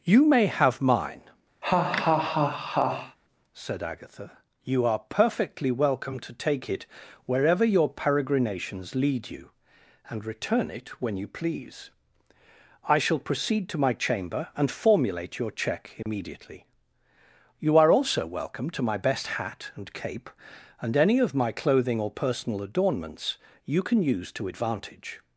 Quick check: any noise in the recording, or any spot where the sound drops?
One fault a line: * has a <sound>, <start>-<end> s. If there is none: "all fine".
* has a laugh, 1.6-3.2 s
* has a dropout, 16.0-16.1 s